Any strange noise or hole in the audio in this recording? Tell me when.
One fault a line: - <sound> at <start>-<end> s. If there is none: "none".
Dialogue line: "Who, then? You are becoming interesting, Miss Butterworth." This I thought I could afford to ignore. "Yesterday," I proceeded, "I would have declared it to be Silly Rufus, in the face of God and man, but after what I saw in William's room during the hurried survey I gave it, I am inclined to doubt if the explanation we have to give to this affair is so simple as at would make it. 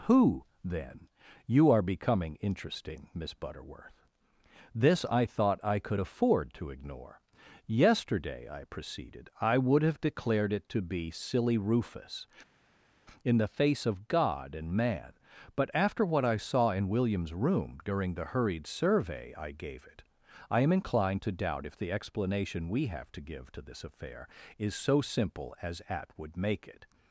none